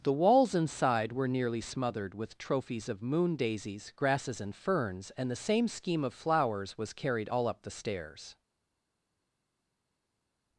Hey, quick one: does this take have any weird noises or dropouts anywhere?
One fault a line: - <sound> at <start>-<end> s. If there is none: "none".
none